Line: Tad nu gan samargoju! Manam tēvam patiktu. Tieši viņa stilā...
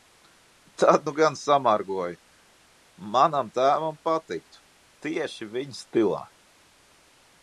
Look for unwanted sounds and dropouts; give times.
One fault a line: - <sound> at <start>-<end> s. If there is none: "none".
none